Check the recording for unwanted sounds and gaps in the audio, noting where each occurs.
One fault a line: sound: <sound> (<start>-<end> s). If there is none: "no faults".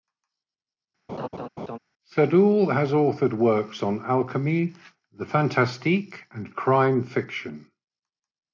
sound: laugh (1.1-1.8 s)